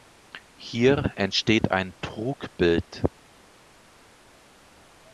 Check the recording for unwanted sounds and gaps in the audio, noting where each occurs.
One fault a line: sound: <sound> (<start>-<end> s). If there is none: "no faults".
no faults